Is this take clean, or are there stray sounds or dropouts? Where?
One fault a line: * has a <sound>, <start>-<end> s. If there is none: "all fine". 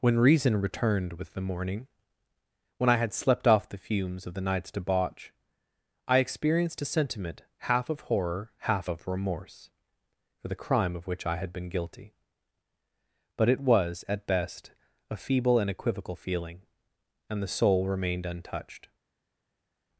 all fine